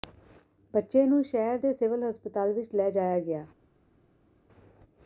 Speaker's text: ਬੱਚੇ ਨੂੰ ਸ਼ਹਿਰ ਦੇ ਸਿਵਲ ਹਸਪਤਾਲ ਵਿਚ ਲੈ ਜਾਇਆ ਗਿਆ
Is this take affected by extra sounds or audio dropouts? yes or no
no